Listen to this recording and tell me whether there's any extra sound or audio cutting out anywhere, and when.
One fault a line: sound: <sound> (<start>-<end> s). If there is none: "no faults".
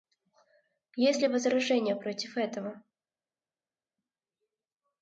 no faults